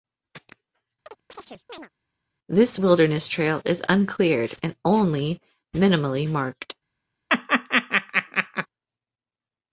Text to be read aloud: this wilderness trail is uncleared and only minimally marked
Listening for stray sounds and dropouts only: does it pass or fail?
fail